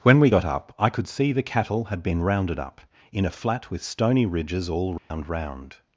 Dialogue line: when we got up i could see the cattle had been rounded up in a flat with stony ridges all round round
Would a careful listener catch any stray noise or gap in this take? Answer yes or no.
yes